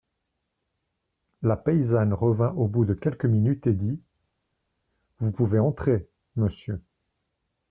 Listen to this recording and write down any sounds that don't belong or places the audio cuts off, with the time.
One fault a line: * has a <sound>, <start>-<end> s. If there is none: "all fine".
all fine